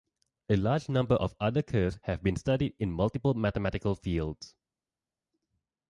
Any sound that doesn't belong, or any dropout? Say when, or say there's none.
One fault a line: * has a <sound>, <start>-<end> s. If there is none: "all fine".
all fine